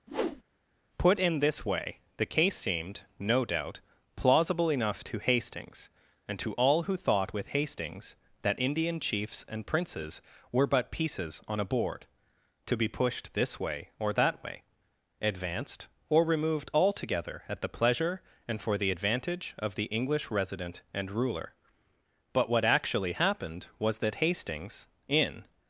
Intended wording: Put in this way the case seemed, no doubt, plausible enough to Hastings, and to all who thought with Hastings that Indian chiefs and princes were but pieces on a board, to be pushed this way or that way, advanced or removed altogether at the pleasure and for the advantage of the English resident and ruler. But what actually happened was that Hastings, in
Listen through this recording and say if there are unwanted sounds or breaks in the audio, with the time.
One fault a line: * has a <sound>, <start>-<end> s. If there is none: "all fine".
* has a whoosh, 0.1-0.4 s